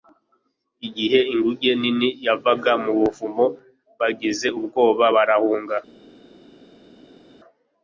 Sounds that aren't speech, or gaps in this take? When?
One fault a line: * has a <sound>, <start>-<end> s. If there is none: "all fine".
all fine